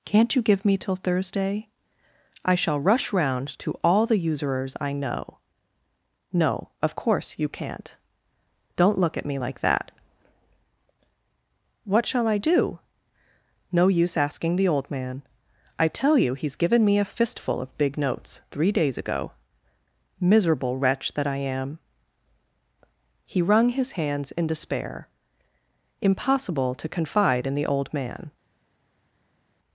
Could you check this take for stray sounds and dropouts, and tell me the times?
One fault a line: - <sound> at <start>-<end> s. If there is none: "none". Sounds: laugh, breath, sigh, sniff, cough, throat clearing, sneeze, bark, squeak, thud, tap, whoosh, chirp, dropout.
none